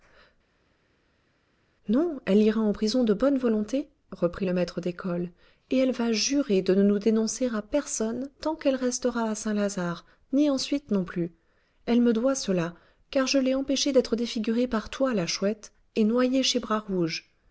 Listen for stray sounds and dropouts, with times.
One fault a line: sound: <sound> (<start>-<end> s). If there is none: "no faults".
no faults